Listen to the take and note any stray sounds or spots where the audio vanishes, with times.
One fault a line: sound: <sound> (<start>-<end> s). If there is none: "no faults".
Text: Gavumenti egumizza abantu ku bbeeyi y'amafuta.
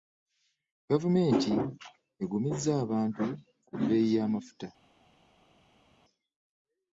no faults